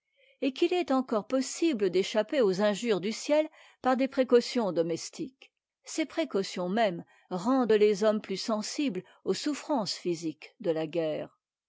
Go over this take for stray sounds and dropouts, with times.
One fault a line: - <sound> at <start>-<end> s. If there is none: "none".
none